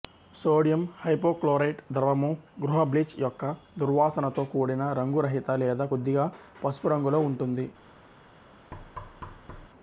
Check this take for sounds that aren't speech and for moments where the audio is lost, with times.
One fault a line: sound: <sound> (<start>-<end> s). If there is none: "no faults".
sound: thud (8.7-9.7 s)